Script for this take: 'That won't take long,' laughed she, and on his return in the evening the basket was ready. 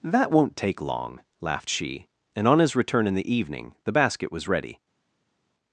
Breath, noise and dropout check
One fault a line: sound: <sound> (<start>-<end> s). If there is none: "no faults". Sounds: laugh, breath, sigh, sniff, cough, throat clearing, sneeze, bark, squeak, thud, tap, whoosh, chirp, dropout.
no faults